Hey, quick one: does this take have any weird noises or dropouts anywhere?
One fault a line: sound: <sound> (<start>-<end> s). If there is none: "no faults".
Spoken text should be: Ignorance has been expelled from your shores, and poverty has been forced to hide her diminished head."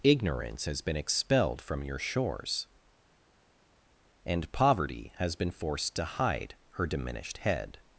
no faults